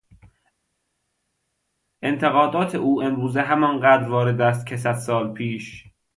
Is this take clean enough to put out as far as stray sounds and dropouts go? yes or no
yes